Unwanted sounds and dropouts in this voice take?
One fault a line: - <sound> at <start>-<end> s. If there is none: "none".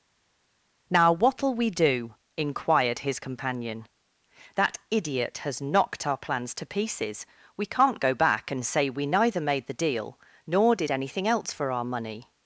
none